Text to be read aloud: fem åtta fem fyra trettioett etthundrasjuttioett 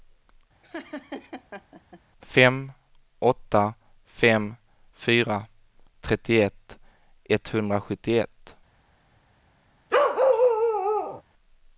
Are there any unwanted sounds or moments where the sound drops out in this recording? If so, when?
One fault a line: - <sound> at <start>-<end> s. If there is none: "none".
- laugh at 0.6-2.0 s
- bark at 9.9-11.2 s